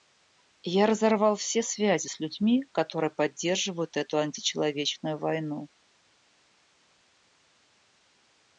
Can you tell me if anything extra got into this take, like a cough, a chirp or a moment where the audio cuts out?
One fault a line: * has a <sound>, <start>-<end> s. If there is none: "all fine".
all fine